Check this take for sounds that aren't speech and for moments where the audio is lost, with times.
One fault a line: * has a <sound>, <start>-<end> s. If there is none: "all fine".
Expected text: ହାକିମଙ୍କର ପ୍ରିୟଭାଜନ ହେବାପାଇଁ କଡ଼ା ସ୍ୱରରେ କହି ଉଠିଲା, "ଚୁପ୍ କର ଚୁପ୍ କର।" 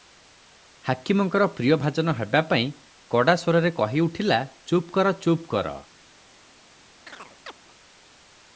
* has a chirp, 7.1-7.5 s